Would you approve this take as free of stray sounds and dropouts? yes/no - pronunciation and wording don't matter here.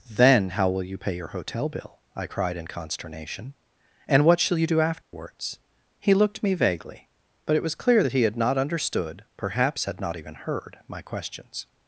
no